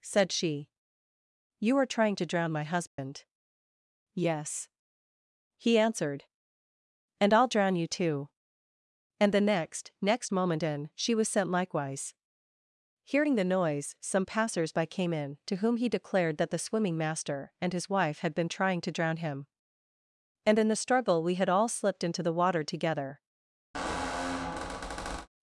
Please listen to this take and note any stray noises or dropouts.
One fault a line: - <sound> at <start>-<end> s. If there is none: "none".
- dropout at 2.9-3.0 s
- squeak at 23.7-25.3 s